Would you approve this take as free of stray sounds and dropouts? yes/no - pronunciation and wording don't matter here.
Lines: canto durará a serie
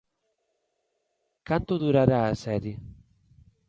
yes